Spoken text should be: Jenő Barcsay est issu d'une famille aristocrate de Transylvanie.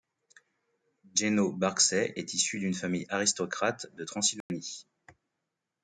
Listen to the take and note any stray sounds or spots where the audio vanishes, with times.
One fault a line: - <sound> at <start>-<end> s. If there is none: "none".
- dropout at 4.4-4.5 s